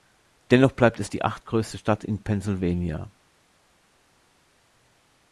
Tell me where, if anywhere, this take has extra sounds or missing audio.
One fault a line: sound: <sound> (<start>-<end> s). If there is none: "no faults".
no faults